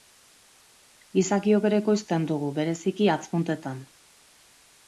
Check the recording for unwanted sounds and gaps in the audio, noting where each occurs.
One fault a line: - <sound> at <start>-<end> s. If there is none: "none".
none